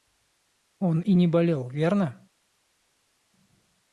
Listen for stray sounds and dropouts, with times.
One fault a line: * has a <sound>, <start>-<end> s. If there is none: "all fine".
all fine